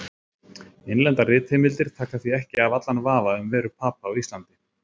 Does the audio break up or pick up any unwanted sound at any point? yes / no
no